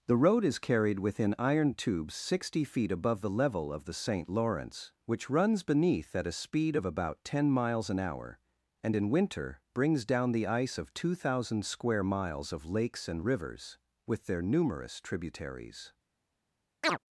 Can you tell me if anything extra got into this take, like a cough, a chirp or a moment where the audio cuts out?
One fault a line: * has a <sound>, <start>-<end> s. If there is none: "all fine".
* has a chirp, 16.8-17.0 s